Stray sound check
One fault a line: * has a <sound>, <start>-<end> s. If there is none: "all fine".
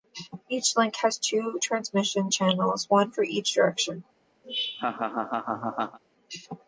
* has a laugh, 4.4-6.0 s